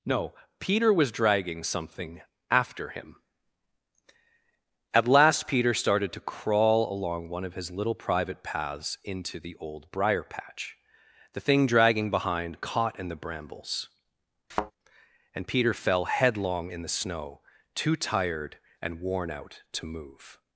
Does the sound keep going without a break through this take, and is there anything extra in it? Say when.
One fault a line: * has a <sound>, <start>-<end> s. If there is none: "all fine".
* has a thud, 14.5-14.7 s